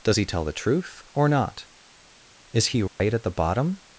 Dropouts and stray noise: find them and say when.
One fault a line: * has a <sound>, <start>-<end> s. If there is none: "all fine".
* has a dropout, 2.9-3.0 s